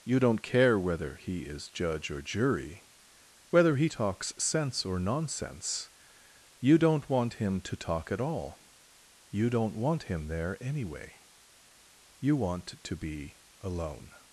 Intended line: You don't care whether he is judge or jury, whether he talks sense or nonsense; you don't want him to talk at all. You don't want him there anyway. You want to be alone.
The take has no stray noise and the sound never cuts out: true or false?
true